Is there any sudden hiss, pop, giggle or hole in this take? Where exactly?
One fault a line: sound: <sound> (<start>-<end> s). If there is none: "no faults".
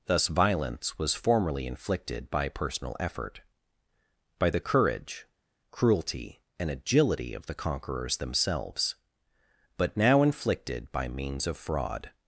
no faults